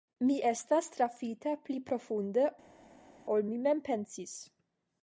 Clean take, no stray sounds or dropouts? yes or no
yes